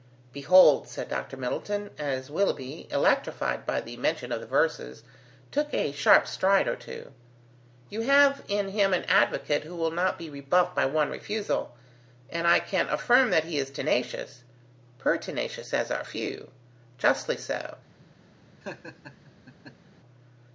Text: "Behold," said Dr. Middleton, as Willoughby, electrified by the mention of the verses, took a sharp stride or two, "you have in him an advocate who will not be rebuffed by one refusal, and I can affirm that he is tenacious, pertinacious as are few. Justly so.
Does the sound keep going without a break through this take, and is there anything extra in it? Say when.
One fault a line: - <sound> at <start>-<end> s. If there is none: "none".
- laugh at 18.6-19.9 s